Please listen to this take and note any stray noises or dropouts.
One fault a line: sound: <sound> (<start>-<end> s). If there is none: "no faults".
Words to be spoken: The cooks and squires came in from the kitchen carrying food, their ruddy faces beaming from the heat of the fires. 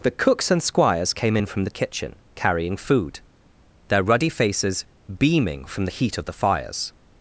no faults